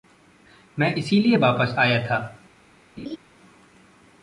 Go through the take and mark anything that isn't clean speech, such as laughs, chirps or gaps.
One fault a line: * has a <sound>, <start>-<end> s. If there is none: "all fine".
* has a laugh, 3.0-3.2 s